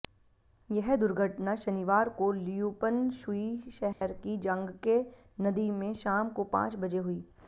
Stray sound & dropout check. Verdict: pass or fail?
fail